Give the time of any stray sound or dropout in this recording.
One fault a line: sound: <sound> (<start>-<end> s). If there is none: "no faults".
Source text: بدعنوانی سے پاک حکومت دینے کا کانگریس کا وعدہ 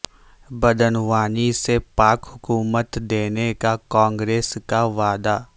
no faults